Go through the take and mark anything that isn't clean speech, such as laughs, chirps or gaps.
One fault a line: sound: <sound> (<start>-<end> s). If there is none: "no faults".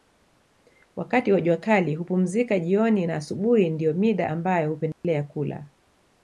sound: dropout (4.9-5.0 s)